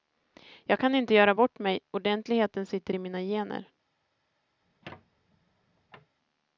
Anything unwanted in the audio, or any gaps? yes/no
yes